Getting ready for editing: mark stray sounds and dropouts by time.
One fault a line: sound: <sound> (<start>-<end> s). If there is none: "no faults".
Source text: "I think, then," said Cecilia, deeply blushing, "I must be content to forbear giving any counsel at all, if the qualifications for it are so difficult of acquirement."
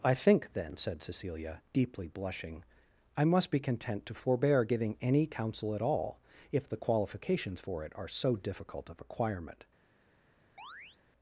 sound: chirp (10.6-11.0 s)